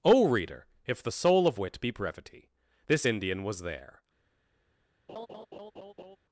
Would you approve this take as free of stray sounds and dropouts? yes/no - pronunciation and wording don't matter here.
no